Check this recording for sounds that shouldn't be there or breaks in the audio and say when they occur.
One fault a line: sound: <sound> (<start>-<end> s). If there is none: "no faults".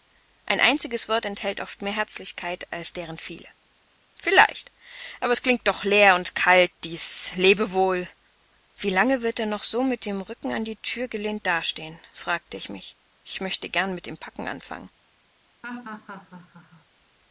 sound: laugh (15.6-16.9 s)